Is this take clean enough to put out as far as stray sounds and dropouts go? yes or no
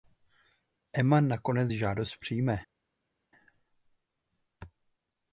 yes